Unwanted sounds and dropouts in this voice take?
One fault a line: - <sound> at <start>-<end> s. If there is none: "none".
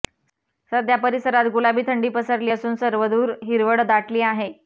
none